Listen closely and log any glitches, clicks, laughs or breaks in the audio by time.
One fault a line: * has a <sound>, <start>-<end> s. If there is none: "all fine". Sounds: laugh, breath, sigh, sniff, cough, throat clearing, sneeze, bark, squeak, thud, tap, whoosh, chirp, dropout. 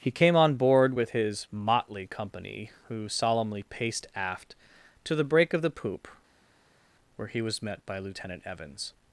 all fine